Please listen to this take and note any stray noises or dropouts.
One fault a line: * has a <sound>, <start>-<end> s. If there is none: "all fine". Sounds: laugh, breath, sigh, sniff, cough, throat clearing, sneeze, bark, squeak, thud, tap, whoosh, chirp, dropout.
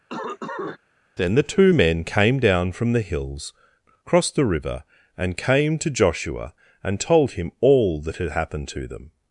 * has a cough, 0.1-0.8 s